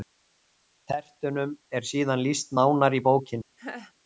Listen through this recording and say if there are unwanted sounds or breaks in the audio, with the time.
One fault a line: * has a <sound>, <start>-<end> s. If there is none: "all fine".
* has a laugh, 3.6-3.9 s